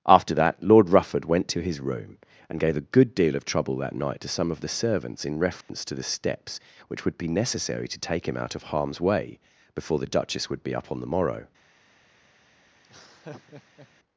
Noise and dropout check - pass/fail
fail